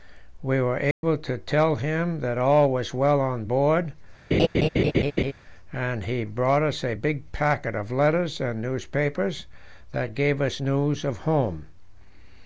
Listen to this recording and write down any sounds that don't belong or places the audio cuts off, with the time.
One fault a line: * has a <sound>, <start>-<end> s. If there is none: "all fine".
* has a dropout, 0.9-1.0 s
* has a laugh, 4.3-5.3 s